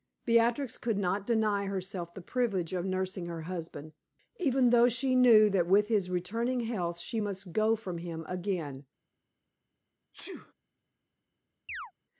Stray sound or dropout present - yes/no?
yes